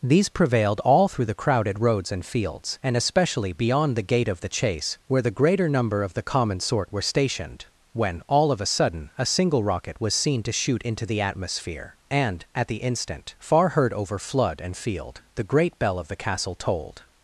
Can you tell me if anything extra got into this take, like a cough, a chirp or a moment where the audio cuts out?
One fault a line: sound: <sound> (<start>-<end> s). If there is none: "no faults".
no faults